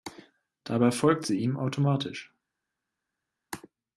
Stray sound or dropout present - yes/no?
no